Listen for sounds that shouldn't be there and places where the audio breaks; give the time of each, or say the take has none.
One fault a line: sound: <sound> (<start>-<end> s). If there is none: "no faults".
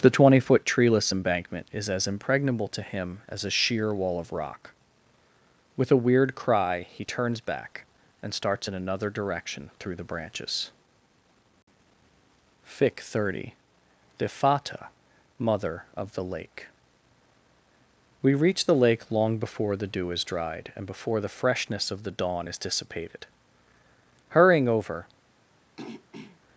sound: throat clearing (25.8-26.4 s)